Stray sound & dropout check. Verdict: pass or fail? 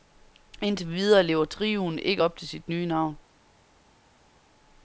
pass